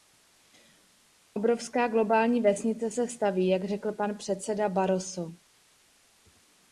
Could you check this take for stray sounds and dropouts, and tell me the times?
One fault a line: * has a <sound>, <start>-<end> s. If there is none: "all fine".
all fine